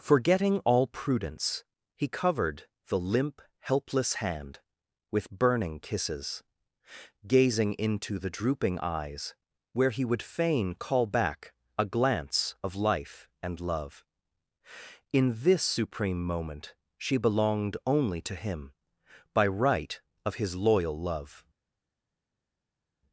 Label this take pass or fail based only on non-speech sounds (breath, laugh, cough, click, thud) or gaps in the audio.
pass